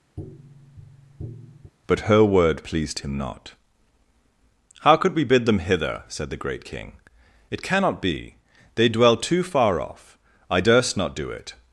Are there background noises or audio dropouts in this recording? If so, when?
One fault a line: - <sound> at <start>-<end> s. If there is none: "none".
- tap at 0.2-1.7 s